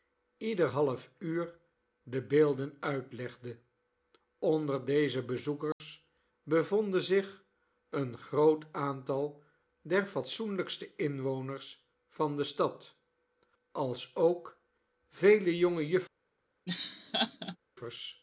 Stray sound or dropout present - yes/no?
yes